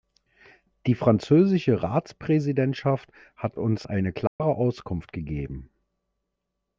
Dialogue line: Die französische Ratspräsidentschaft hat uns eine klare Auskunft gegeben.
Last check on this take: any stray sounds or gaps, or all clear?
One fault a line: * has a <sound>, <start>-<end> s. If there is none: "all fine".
* has a dropout, 4.3-4.4 s